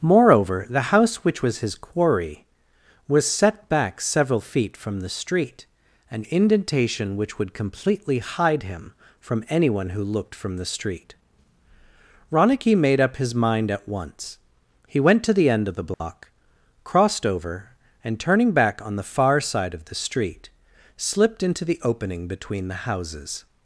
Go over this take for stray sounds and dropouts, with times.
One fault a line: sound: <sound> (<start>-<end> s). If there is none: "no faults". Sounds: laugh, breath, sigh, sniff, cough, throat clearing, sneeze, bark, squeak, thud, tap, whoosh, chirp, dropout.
sound: dropout (15.9-16.0 s)